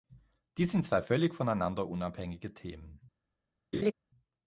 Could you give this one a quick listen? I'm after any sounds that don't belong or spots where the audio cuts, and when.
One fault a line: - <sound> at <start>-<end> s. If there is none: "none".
- laugh at 3.7-3.9 s